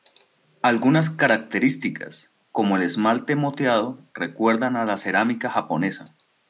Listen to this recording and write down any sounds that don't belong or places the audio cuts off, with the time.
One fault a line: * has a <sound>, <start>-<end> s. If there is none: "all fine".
all fine